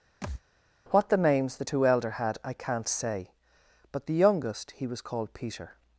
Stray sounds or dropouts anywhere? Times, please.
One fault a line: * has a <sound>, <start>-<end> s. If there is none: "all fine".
* has a thud, 0.2-0.4 s